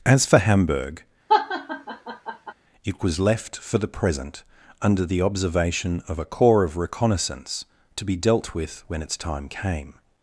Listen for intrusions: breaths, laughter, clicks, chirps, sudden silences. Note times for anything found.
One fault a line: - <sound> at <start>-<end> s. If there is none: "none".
- laugh at 1.3-2.5 s